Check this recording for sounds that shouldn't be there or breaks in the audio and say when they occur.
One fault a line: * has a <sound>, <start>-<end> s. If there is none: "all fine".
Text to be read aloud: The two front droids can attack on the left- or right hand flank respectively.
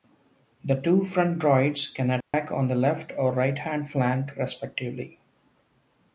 * has a dropout, 2.2-2.3 s